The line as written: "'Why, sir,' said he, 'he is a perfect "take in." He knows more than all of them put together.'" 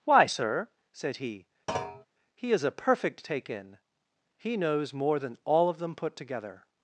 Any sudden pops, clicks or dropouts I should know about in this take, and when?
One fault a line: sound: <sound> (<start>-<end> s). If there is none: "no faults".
sound: thud (1.7-2.1 s)